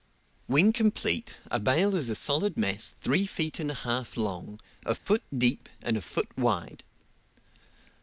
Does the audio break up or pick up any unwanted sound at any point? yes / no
yes